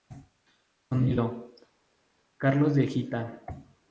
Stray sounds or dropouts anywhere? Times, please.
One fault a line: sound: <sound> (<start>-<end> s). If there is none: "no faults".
no faults